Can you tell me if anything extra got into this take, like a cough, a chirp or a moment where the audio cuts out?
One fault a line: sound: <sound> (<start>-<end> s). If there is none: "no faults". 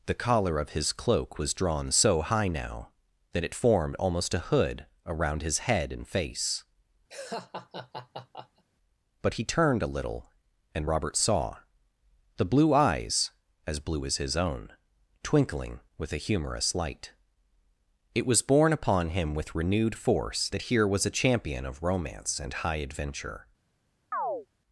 sound: laugh (7.1-8.6 s)
sound: chirp (24.1-24.5 s)